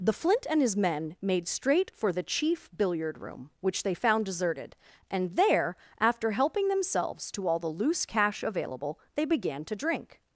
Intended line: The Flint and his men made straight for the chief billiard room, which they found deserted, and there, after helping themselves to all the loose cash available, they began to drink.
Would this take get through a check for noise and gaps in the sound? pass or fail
pass